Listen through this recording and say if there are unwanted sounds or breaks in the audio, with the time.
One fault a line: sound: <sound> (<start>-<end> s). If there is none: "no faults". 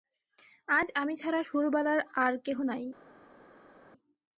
no faults